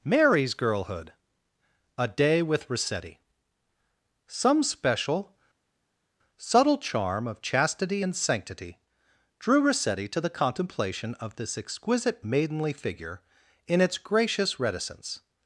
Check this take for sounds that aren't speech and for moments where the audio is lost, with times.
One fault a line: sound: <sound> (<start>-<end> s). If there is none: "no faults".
no faults